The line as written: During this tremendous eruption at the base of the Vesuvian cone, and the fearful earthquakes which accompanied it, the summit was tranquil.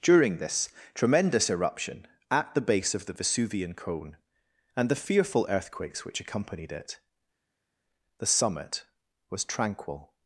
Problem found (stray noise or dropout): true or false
false